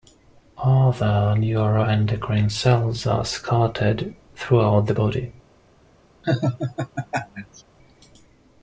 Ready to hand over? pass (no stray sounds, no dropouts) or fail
fail